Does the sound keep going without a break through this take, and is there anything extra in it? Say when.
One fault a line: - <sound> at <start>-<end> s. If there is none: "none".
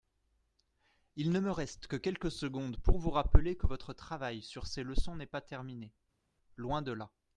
none